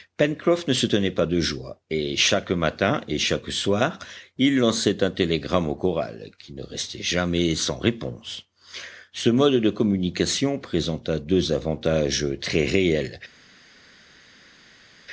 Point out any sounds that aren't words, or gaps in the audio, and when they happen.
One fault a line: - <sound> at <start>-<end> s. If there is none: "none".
none